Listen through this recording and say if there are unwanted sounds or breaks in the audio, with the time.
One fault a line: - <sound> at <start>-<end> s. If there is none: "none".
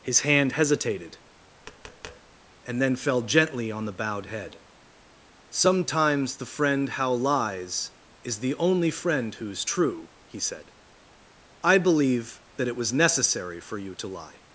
- tap at 1.6-2.4 s